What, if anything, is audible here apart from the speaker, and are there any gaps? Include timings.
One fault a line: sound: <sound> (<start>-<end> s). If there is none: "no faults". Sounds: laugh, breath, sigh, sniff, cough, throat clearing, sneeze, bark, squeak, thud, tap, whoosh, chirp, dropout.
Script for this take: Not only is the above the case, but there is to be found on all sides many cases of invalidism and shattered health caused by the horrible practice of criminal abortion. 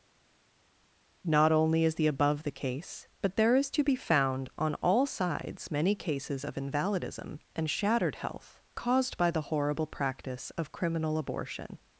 no faults